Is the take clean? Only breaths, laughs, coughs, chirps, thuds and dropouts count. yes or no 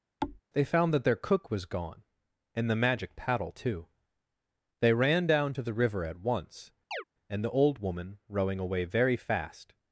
no